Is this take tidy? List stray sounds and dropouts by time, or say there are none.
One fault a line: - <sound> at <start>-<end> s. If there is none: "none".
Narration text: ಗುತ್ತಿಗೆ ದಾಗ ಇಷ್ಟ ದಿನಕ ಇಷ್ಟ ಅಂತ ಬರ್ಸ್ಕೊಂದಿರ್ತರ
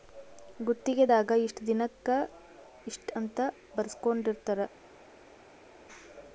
none